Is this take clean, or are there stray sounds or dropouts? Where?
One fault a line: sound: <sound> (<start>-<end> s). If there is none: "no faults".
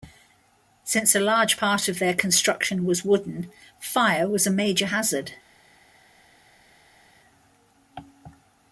no faults